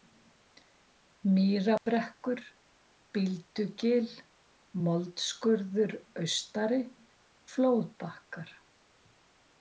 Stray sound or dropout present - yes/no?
yes